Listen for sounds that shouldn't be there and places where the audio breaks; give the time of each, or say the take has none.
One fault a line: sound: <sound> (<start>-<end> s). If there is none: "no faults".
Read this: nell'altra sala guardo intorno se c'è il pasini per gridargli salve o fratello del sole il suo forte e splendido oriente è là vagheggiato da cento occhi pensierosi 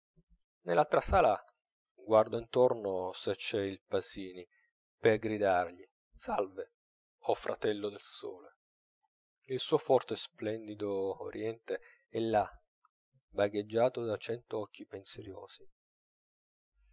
no faults